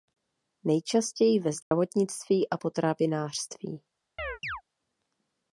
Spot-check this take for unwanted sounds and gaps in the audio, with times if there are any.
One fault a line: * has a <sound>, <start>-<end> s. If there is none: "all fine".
* has a dropout, 1.6-1.7 s
* has a chirp, 4.2-4.6 s